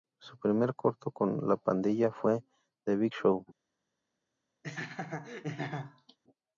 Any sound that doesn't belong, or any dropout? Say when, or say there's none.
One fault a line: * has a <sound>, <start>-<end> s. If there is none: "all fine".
* has a laugh, 4.6-6.2 s